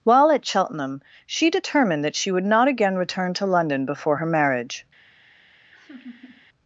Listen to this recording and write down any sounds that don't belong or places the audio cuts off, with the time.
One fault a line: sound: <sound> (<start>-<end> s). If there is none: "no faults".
sound: laugh (5.7-6.5 s)